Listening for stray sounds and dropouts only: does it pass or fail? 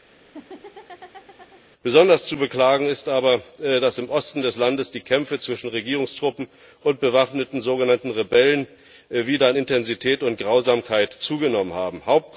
fail